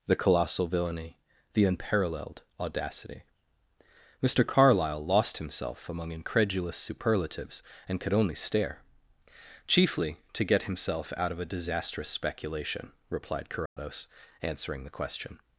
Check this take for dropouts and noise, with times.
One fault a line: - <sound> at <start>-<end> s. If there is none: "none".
- dropout at 13.7-13.8 s